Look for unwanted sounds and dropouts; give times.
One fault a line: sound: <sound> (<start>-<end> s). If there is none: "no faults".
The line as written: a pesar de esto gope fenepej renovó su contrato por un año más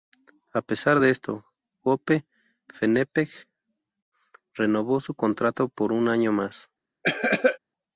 sound: cough (7.0-7.6 s)